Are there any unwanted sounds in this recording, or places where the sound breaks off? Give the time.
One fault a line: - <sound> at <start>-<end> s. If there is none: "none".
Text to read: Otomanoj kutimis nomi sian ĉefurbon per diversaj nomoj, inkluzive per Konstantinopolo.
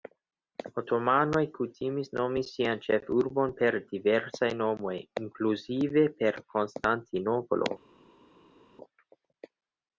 none